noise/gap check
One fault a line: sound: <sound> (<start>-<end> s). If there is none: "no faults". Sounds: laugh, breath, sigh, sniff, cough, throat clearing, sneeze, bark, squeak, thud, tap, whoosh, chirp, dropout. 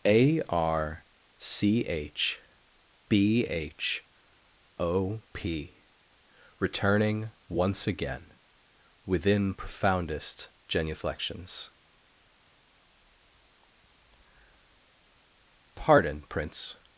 no faults